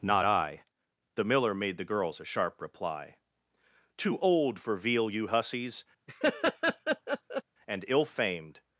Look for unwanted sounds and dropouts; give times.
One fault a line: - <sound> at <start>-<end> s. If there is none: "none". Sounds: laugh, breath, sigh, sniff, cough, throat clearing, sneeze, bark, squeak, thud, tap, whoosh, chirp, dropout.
- laugh at 6.1-7.4 s